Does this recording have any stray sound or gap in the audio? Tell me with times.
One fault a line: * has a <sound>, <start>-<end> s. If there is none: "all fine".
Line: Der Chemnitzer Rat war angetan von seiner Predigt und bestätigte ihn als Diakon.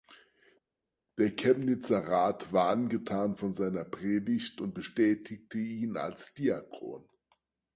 all fine